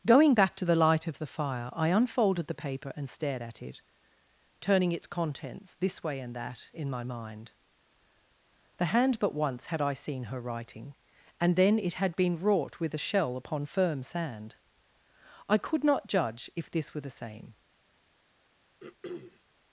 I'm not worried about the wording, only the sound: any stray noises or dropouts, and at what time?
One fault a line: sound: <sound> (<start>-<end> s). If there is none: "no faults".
sound: throat clearing (18.8-19.4 s)